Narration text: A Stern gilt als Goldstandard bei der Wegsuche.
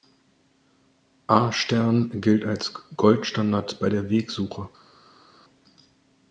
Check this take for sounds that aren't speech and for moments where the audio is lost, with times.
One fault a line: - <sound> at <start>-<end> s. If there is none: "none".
none